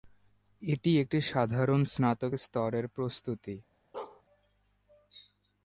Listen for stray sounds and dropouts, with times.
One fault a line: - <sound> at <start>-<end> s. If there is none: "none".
- bark at 3.9-4.2 s